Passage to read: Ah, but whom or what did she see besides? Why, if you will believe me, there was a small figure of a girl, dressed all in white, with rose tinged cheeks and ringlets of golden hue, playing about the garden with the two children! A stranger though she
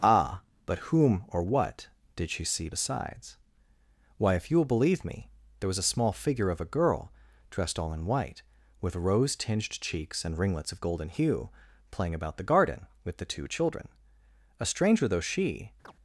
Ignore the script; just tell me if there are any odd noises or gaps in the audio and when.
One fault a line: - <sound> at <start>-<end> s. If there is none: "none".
- chirp at 15.8-15.9 s